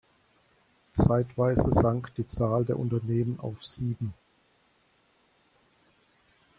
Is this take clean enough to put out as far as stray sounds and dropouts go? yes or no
yes